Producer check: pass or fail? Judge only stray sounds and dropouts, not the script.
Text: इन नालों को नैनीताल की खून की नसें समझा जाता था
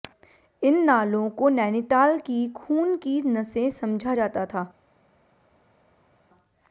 pass